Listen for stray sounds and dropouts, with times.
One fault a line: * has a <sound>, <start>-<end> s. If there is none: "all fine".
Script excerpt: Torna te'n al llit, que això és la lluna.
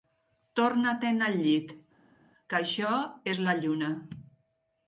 all fine